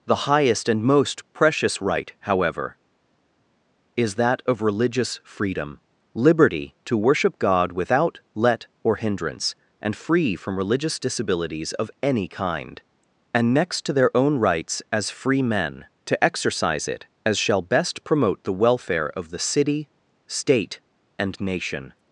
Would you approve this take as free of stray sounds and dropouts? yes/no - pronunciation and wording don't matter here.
yes